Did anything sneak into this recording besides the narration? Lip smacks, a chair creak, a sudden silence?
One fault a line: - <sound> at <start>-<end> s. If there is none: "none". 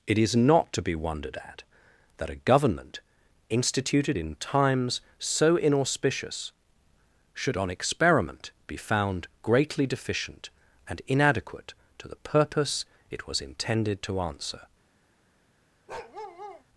- bark at 15.9-16.6 s